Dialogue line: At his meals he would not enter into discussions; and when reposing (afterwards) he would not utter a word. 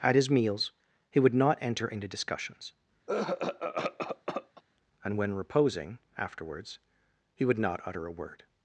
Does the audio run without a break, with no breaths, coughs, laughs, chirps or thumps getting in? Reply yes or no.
no